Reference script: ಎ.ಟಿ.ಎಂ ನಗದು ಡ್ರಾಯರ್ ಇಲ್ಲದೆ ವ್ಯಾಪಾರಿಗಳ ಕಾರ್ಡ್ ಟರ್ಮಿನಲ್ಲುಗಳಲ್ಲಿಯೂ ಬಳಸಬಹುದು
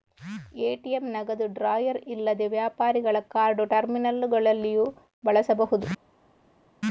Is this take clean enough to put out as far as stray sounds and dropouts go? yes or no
yes